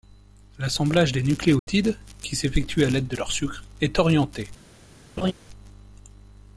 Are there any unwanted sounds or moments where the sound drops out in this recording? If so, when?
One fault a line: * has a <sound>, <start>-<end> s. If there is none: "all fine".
* has a dropout, 1.6-1.7 s
* has a laugh, 5.2-5.3 s